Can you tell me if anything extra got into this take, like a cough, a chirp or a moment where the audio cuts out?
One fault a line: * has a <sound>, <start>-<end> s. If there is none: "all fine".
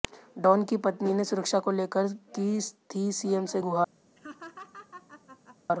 * has a laugh, 4.2-5.6 s